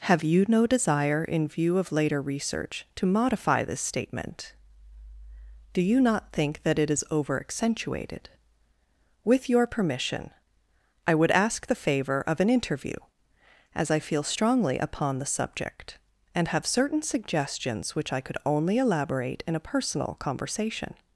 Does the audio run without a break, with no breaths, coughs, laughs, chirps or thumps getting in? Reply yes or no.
yes